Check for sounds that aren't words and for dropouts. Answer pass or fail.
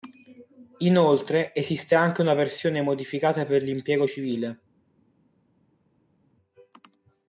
pass